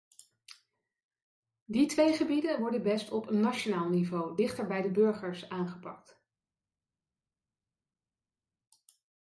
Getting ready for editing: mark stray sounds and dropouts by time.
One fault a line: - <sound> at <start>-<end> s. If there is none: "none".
none